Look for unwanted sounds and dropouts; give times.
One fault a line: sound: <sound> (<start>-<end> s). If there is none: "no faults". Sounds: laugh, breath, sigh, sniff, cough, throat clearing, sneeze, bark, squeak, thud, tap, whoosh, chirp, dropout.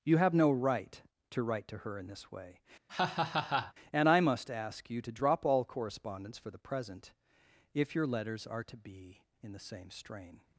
sound: laugh (2.9-3.7 s)